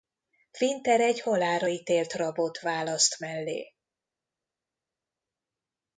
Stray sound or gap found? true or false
false